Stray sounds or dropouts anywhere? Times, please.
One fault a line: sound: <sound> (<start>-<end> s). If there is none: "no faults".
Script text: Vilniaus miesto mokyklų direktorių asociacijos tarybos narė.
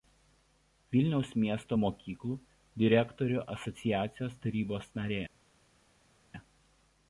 no faults